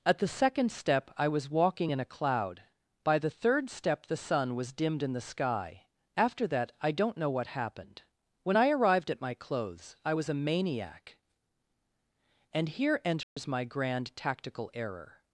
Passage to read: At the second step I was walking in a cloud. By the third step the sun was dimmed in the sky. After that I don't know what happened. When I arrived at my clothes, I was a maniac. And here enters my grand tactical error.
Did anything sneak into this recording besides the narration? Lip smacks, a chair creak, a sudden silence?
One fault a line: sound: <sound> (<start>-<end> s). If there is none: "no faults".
sound: dropout (13.2-13.4 s)